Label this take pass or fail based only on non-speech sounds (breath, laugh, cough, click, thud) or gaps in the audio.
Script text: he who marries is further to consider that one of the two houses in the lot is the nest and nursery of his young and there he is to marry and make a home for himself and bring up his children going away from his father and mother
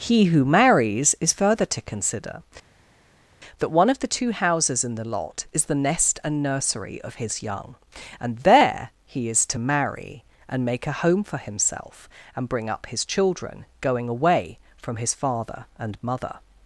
pass